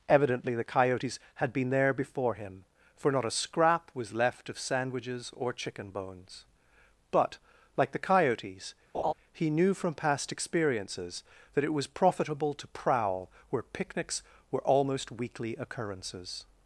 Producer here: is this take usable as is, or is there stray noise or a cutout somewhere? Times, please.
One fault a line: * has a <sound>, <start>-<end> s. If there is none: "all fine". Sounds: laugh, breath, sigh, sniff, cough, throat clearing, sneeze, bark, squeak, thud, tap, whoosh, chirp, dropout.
* has a laugh, 8.9-9.1 s